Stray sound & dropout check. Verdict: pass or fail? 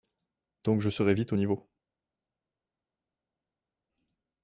pass